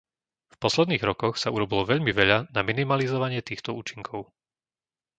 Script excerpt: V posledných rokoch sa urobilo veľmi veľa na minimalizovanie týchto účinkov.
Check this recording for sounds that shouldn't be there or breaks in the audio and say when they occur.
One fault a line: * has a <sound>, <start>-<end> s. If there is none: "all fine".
all fine